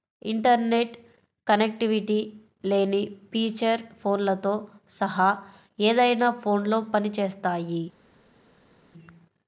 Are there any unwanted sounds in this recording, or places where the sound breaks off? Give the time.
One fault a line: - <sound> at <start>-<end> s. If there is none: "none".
none